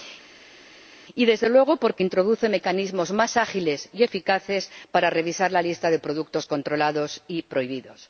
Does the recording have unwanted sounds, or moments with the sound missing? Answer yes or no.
no